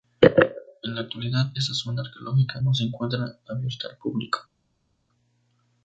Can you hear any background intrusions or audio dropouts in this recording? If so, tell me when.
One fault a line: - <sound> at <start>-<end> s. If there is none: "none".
none